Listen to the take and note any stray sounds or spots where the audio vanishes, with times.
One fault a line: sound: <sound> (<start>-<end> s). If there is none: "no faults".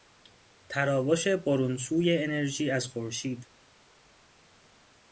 no faults